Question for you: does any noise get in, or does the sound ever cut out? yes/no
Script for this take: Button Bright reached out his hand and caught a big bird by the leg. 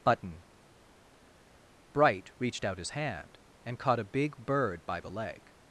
no